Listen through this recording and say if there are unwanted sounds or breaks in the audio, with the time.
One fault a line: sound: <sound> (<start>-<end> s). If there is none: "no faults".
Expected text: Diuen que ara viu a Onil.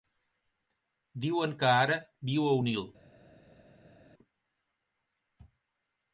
no faults